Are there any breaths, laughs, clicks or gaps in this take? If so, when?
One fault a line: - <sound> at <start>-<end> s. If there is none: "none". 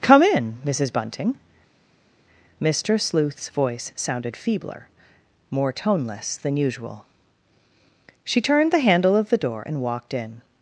none